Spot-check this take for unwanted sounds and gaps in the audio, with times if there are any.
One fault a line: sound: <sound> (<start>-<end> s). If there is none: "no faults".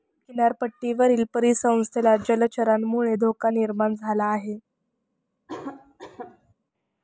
sound: cough (5.5-6.5 s)